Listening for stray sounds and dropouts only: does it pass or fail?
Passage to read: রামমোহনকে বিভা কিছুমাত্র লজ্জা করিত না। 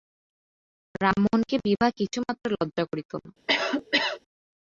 fail